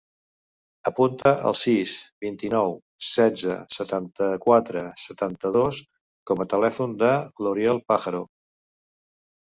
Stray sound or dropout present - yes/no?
yes